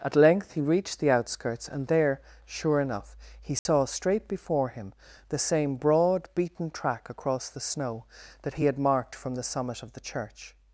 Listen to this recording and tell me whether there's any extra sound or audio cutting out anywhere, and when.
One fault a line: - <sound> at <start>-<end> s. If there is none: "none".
- dropout at 3.6-3.7 s